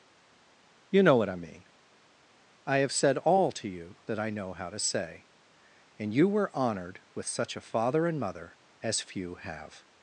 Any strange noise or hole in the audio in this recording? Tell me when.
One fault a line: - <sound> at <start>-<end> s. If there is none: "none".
none